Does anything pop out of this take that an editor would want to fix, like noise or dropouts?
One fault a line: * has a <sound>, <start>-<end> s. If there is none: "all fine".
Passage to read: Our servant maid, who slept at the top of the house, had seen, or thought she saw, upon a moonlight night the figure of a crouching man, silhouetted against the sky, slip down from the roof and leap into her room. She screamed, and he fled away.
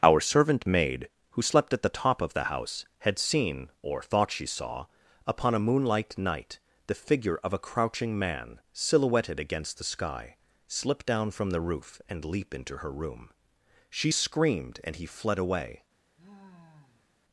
* has a sigh, 16.2-17.2 s